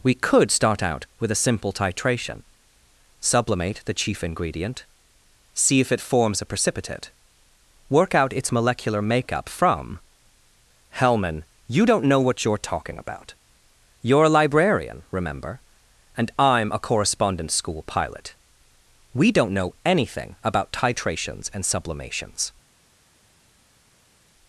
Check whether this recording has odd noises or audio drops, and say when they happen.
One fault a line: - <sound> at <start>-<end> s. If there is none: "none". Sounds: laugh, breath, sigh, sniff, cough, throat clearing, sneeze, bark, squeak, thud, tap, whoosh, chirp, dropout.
none